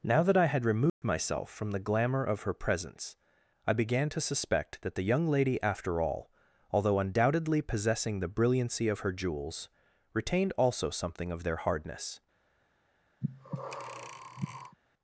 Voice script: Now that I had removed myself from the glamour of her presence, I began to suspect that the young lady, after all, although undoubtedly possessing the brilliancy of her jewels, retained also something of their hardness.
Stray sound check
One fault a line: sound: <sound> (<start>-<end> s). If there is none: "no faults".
sound: dropout (0.9-1.0 s)
sound: breath (13.2-14.8 s)